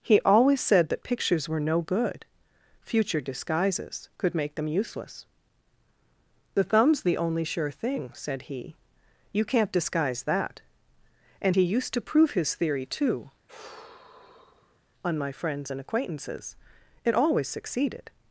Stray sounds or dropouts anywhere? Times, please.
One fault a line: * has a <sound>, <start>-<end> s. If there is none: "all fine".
* has a sigh, 13.5-14.8 s